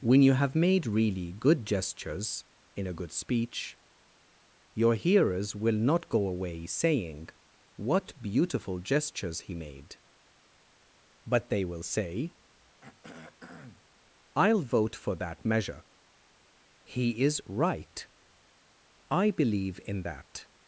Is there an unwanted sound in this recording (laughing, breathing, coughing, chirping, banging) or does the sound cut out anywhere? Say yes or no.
yes